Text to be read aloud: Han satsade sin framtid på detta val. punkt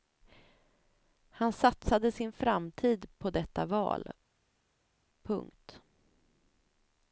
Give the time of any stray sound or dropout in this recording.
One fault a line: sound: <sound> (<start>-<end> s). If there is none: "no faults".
no faults